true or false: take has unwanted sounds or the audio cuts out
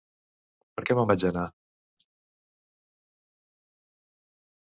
false